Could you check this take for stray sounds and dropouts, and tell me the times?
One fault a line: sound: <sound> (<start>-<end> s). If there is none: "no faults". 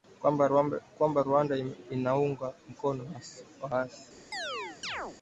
sound: chirp (4.3-5.2 s)